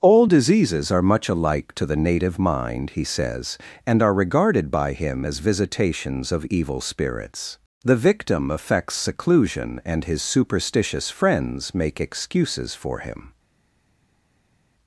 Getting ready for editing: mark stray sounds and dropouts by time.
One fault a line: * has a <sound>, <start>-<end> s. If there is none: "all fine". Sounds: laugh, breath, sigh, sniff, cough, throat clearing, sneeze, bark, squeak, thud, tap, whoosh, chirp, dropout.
all fine